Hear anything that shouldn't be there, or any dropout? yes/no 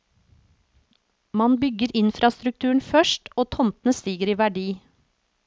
no